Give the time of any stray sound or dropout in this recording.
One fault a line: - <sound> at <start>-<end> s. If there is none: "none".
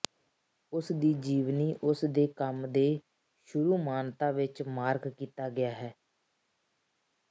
none